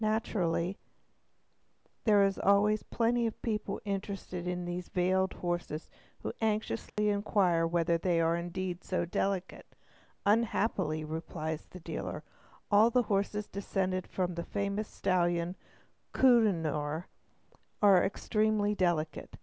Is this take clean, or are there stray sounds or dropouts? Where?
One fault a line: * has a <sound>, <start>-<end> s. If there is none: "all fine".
* has a dropout, 6.9-7.0 s